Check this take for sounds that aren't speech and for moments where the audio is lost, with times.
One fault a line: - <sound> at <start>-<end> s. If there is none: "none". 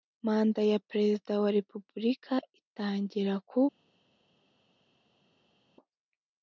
none